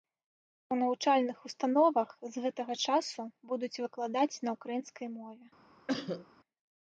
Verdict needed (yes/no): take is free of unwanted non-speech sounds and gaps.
no